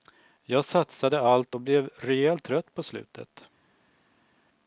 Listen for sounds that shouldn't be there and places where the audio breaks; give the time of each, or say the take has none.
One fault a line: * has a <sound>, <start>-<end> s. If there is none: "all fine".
all fine